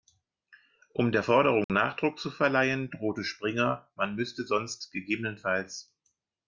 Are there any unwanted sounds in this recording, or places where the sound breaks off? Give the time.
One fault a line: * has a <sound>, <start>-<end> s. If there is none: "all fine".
* has a dropout, 1.6-1.7 s